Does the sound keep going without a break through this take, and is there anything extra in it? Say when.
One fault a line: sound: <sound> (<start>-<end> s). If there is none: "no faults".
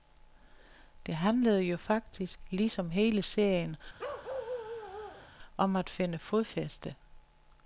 sound: bark (4.0-5.3 s)